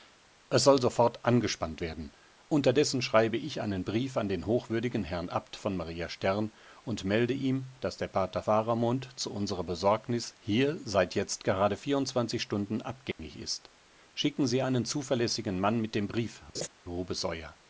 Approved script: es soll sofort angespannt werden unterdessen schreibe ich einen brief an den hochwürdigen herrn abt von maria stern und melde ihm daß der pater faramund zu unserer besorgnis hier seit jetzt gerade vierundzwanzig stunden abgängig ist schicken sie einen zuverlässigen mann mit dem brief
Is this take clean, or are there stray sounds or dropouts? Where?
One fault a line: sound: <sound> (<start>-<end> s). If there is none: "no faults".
sound: dropout (13.1-13.2 s)
sound: laugh (16.5-16.7 s)